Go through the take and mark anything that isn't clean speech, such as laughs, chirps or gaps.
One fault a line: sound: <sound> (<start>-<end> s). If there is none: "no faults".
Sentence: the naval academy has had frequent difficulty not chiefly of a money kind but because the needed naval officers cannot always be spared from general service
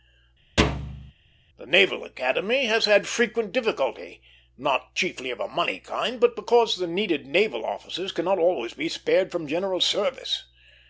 sound: thud (0.6-1.1 s)